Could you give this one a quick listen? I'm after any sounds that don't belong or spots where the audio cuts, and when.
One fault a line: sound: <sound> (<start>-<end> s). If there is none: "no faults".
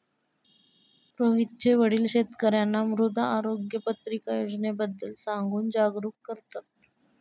no faults